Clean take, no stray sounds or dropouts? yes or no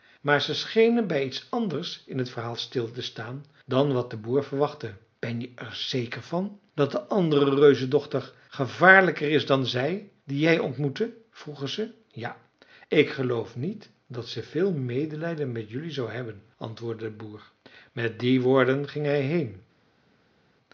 yes